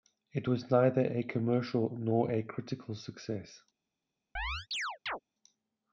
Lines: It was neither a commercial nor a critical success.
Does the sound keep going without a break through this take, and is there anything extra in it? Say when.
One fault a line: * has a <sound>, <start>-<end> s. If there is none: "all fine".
* has a chirp, 4.4-5.2 s